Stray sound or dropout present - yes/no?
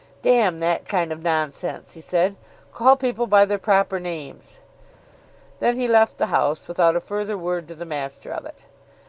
no